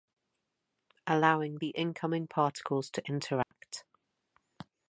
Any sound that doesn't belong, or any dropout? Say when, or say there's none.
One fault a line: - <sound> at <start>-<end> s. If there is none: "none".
- dropout at 3.4-3.5 s